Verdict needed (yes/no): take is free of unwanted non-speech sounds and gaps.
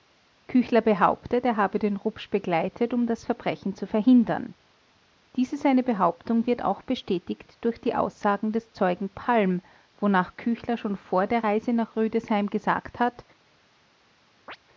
no